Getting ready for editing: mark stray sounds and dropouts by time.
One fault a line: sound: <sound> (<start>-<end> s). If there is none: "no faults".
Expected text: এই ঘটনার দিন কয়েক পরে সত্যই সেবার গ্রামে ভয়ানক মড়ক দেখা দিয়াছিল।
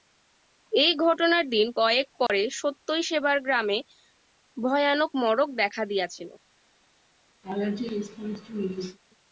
sound: dropout (2.3-2.3 s)
sound: laugh (7.4-9.0 s)